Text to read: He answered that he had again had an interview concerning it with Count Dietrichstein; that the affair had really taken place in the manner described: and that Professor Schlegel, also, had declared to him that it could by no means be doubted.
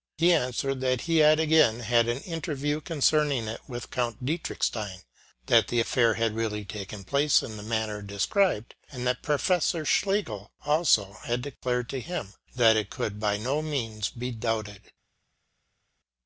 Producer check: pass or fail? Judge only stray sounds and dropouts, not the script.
pass